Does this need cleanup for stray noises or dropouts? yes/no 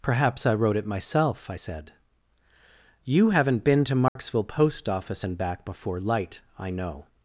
yes